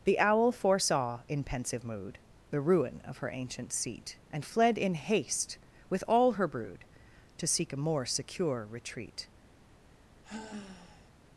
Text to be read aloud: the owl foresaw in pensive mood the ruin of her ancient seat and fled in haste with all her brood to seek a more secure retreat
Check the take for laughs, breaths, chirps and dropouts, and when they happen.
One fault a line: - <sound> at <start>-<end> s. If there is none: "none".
- sigh at 10.2-11.1 s